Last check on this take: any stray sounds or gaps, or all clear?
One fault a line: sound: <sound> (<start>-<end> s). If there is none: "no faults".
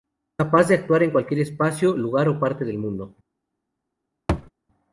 sound: thud (4.3-4.5 s)